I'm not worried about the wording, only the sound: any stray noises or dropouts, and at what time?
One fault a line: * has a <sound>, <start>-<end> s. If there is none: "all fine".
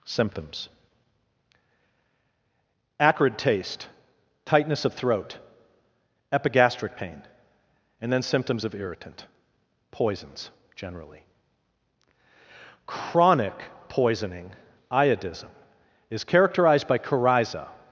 all fine